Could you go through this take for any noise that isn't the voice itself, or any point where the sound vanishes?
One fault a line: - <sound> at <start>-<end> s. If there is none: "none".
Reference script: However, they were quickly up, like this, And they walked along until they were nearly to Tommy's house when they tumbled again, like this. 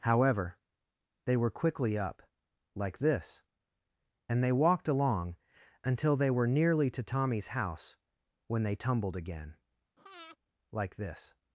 - breath at 10.0-10.4 s